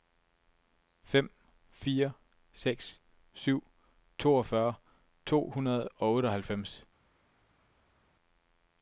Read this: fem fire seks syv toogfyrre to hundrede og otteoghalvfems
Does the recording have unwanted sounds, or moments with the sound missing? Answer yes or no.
no